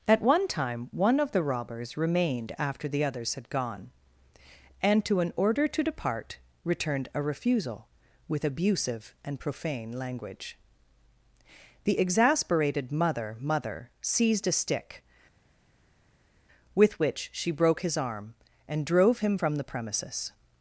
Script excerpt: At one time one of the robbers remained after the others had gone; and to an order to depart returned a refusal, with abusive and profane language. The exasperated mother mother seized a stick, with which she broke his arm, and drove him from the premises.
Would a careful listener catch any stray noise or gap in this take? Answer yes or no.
no